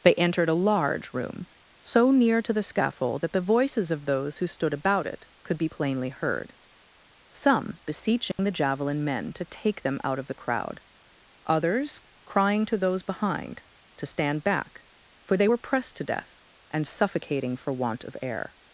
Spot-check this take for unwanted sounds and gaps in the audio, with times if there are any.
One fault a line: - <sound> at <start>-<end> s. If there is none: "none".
- dropout at 8.3-8.4 s